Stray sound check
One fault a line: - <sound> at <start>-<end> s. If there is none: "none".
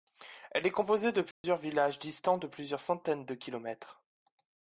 - dropout at 1.3-1.4 s